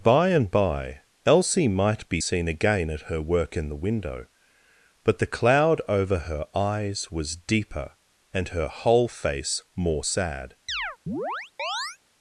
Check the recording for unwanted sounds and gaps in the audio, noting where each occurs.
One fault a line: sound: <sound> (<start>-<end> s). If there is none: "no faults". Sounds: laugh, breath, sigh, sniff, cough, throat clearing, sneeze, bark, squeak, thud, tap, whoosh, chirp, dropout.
sound: chirp (10.7-12.0 s)